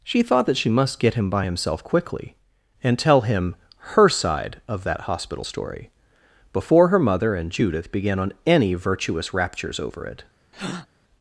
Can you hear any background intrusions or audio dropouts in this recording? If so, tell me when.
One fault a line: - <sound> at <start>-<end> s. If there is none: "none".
- breath at 10.5-10.9 s